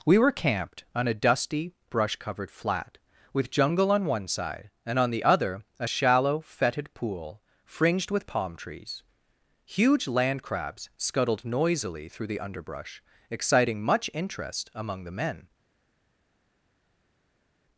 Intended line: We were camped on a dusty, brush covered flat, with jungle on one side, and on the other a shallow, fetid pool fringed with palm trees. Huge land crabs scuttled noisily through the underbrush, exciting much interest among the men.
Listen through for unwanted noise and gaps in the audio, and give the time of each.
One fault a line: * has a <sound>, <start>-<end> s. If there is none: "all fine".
all fine